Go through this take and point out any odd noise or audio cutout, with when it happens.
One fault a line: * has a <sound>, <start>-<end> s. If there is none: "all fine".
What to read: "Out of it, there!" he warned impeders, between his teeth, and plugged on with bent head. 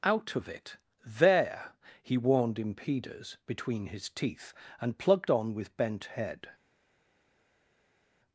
all fine